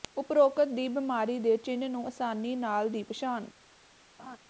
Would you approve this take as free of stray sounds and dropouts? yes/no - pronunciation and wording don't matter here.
no